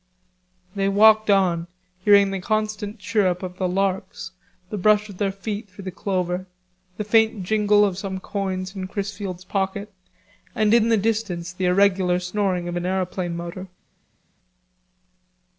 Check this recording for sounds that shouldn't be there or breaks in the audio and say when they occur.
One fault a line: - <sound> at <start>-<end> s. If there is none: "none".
none